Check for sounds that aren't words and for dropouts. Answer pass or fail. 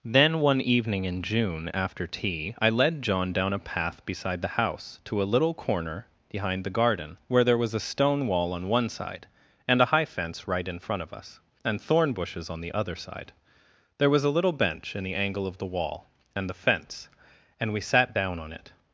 pass